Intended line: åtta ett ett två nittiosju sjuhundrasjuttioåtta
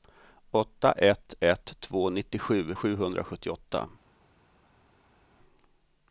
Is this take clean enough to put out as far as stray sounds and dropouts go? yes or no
yes